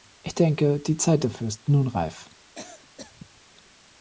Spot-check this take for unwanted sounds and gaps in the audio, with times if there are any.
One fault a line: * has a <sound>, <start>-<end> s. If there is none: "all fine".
* has a cough, 2.4-3.4 s